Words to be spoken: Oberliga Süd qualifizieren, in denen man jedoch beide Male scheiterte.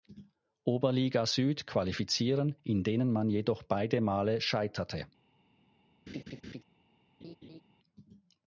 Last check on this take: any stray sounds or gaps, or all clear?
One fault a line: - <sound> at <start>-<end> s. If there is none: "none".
- laugh at 6.1-6.6 s
- laugh at 7.2-7.6 s